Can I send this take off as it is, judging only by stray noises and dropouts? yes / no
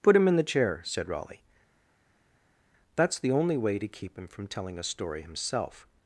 yes